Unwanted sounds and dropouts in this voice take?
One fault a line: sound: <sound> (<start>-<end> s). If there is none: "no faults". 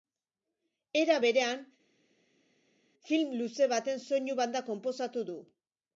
no faults